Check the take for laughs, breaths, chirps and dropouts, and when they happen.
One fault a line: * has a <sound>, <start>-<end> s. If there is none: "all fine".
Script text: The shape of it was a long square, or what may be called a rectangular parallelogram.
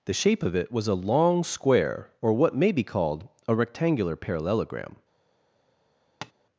* has a tap, 6.2-6.3 s